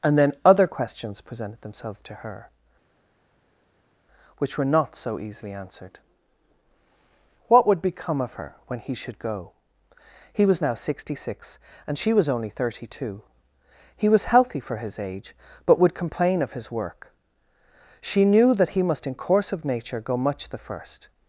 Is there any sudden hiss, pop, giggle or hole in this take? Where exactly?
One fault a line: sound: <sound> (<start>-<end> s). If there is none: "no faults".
no faults